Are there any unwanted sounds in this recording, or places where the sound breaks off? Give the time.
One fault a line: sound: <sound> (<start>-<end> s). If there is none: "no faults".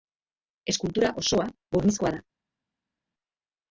no faults